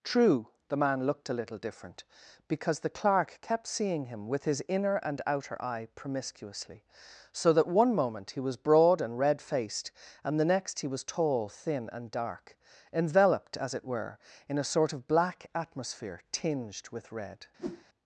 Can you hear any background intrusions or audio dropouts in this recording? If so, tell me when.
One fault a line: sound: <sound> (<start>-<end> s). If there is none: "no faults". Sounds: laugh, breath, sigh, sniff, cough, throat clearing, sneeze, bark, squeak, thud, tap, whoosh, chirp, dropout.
sound: whoosh (17.6-17.9 s)